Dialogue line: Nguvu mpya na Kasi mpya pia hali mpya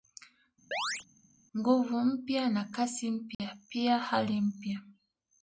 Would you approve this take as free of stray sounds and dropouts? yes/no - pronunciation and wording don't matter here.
no